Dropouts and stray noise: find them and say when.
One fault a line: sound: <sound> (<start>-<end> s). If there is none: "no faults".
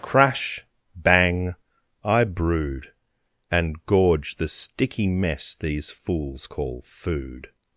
no faults